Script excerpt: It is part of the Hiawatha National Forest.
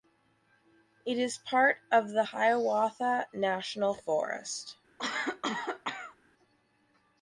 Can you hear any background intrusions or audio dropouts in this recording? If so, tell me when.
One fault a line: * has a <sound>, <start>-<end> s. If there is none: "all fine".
* has a cough, 5.0-6.2 s